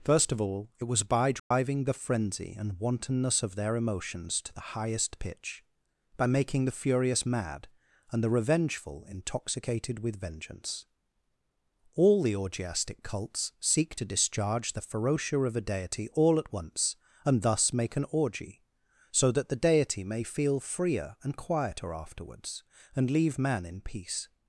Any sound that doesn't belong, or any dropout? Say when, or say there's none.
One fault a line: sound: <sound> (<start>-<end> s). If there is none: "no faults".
sound: dropout (1.4-1.5 s)